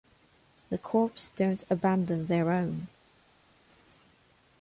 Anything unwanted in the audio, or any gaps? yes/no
no